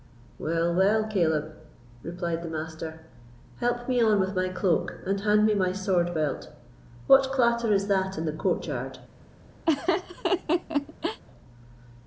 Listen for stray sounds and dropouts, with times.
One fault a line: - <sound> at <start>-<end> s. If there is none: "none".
- laugh at 9.7-11.2 s